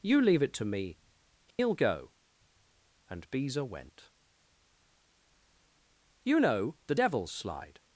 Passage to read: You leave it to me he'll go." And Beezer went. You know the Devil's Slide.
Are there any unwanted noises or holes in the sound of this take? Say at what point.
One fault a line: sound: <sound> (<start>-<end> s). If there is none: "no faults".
sound: dropout (1.5-1.6 s)